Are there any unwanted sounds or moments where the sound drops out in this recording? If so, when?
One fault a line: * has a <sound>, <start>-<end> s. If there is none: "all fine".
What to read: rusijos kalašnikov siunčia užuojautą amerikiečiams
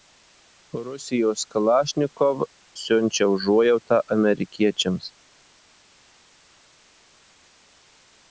all fine